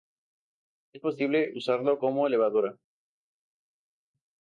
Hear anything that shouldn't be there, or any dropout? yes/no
no